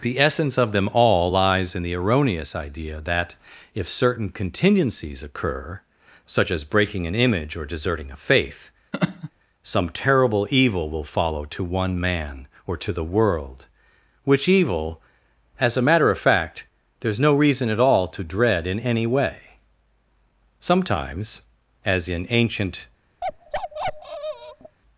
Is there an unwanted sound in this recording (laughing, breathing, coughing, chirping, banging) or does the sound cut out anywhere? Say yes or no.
yes